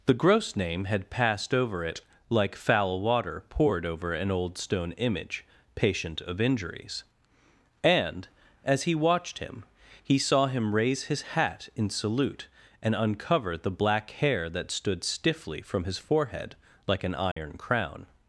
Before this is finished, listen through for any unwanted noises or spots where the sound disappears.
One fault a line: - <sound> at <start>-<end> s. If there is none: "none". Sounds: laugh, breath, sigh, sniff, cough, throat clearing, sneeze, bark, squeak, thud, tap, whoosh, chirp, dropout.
- dropout at 17.3-17.4 s